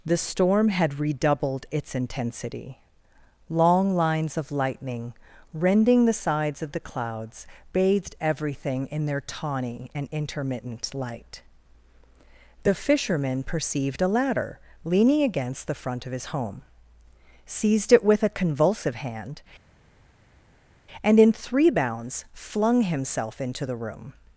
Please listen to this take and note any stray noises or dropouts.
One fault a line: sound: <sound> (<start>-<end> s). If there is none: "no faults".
no faults